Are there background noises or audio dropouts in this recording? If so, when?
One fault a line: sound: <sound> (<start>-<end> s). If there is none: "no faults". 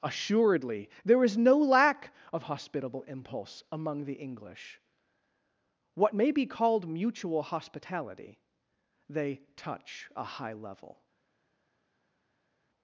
no faults